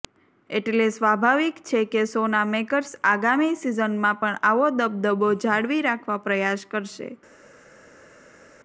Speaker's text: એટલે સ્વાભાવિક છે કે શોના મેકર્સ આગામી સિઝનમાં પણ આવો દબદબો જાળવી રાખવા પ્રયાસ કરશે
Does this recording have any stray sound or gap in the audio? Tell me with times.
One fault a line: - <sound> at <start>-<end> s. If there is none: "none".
none